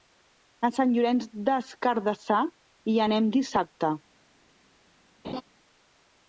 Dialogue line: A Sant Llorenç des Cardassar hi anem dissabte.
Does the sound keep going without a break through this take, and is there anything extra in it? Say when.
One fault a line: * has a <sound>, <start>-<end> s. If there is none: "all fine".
* has a laugh, 5.2-5.4 s